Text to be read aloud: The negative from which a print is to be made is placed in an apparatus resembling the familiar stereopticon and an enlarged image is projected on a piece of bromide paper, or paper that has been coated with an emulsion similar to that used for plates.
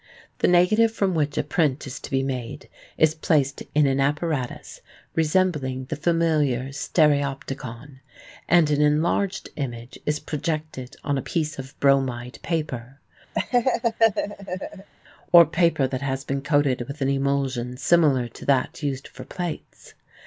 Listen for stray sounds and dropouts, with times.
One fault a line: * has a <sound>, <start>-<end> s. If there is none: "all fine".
* has a laugh, 13.4-14.9 s